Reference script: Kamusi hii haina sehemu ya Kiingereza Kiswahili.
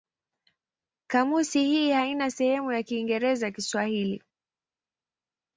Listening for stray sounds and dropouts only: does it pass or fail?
pass